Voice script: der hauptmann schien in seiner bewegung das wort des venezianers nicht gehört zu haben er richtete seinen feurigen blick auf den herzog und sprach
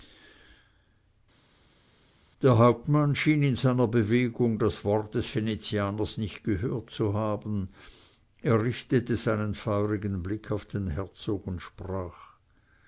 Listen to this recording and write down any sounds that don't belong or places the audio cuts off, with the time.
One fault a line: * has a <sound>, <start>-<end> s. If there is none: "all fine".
all fine